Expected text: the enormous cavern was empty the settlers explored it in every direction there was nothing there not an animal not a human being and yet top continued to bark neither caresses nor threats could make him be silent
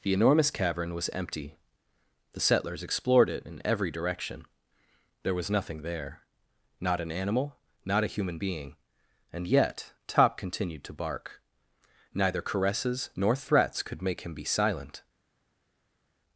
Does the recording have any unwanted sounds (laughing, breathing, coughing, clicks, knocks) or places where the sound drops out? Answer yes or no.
no